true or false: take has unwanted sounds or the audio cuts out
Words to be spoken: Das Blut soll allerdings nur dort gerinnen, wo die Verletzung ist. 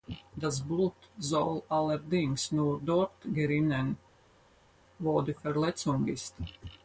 false